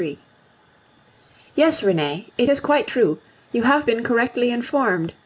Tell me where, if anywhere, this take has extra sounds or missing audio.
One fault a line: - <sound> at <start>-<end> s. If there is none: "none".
none